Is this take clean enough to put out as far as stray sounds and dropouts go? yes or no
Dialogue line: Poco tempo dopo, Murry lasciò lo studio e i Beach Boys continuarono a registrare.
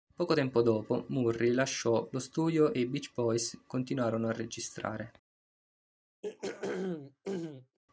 no